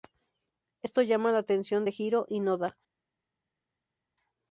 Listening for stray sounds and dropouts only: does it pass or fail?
pass